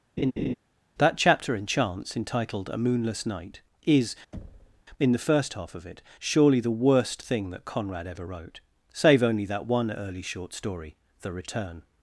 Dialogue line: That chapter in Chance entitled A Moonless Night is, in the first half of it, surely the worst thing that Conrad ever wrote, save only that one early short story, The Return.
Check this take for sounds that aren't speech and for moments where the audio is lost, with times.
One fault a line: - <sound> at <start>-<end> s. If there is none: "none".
- laugh at 0.2-0.5 s
- thud at 4.3-4.8 s